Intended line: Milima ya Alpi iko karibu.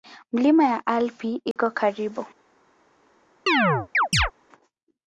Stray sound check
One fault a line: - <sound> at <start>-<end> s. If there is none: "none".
- dropout at 1.5-1.6 s
- chirp at 3.5-4.3 s